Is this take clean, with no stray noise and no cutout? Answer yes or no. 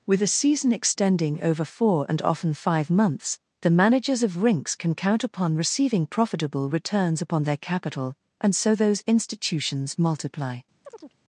no